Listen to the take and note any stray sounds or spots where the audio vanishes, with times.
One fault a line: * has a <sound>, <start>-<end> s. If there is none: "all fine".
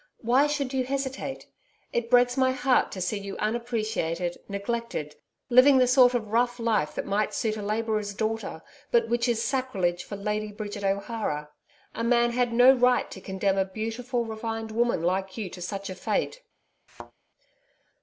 * has a thud, 16.9-17.1 s